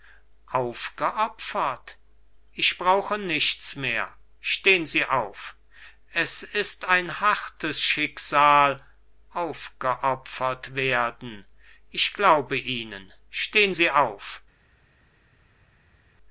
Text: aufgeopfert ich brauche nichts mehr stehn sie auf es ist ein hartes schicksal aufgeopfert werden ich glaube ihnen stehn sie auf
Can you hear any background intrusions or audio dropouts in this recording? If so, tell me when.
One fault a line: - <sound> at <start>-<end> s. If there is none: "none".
none